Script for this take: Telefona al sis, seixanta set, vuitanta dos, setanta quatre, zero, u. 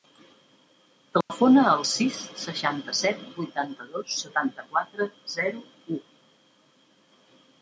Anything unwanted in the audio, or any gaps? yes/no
yes